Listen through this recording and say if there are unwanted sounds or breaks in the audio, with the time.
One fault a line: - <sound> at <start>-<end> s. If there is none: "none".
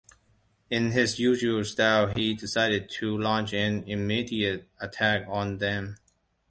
none